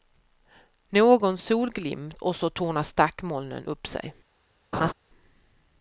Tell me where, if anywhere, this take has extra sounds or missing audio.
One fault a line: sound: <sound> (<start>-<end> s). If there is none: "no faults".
sound: laugh (4.7-4.9 s)